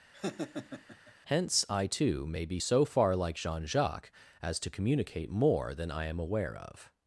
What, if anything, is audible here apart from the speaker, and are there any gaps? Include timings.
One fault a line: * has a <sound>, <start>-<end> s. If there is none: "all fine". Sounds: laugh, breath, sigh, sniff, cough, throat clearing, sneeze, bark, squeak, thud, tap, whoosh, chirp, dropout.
* has a laugh, 0.1-1.1 s